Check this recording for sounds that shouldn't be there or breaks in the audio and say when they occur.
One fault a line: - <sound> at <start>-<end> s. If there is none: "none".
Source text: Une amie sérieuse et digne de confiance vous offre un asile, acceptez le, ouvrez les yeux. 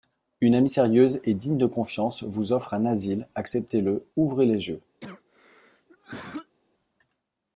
- cough at 5.0-6.6 s